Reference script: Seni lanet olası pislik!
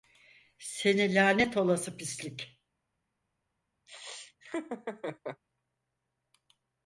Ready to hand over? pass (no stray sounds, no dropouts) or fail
fail